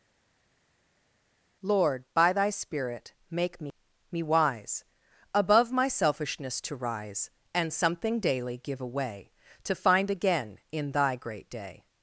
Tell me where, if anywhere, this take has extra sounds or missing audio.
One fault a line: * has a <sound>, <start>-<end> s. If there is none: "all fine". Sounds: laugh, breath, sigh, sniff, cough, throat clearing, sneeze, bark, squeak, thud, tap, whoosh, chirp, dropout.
all fine